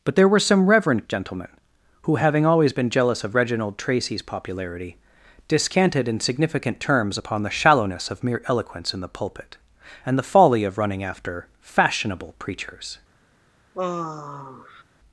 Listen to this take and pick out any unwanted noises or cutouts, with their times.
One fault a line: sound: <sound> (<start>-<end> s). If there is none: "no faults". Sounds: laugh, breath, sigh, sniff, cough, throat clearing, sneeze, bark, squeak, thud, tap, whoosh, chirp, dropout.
sound: sigh (13.7-14.8 s)